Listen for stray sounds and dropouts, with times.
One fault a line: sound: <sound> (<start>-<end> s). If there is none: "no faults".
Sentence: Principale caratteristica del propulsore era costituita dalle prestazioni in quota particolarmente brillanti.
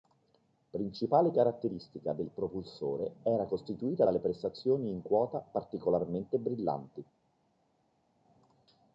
no faults